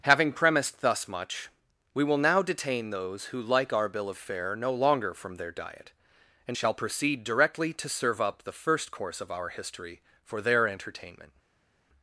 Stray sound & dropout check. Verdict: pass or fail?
pass